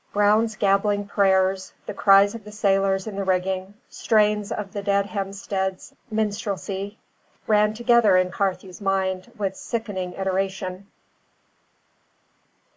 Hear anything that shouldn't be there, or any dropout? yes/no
no